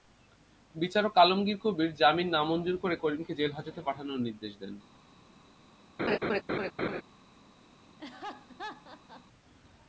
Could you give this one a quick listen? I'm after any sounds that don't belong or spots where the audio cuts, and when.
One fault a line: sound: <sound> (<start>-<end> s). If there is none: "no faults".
sound: laugh (6.0-7.0 s)
sound: laugh (8.0-9.2 s)